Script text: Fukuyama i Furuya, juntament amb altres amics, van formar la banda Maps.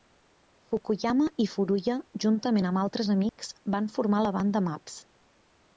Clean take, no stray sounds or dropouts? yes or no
no